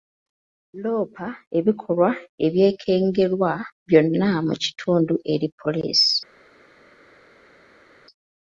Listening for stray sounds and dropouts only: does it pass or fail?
pass